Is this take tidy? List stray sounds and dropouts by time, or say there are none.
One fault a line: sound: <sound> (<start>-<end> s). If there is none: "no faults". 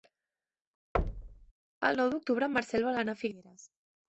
sound: thud (0.9-1.5 s)